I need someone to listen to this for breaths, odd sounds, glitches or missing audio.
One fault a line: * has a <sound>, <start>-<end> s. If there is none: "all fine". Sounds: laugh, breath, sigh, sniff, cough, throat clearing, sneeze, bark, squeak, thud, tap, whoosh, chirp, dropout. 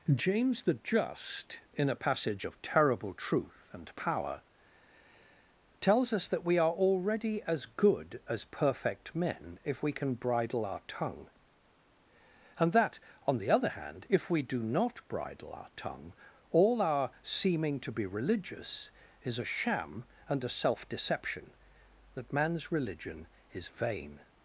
all fine